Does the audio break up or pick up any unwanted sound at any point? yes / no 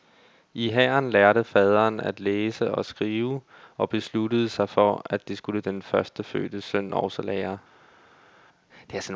no